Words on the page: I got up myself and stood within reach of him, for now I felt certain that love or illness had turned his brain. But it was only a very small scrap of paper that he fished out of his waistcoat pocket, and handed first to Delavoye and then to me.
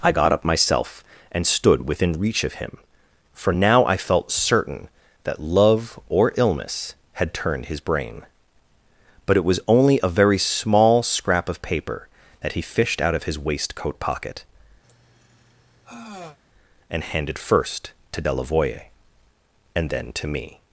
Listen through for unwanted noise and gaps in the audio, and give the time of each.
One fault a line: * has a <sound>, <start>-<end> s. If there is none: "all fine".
* has a sigh, 14.8-16.4 s